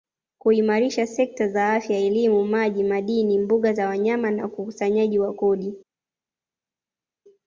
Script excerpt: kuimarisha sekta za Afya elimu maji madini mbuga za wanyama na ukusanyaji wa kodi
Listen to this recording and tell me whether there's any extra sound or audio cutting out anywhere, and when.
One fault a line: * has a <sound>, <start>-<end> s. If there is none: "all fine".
all fine